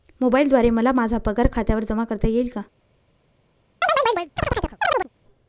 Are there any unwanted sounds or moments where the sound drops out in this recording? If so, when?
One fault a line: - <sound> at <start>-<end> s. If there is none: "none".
- chirp at 3.8-5.1 s